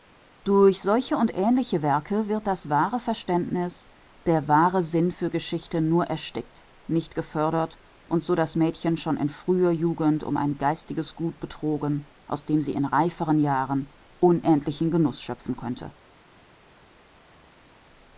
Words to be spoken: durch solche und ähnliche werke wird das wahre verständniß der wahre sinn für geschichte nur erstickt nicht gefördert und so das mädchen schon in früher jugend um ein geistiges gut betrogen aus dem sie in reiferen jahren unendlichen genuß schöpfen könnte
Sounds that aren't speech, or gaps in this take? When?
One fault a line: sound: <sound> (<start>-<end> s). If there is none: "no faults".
no faults